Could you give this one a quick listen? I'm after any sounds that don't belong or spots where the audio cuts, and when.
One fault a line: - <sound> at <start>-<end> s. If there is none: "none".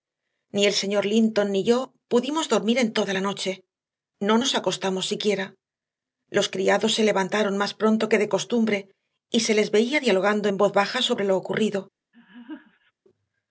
- laugh at 12.1-12.9 s